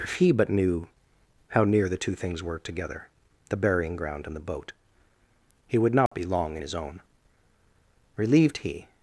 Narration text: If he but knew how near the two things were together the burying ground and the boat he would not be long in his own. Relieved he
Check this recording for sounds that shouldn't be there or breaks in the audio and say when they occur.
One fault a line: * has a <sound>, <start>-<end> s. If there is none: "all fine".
* has a dropout, 6.1-6.1 s